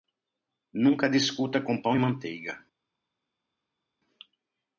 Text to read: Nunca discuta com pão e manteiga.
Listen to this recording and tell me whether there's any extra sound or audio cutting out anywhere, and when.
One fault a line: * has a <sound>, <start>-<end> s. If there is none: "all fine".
all fine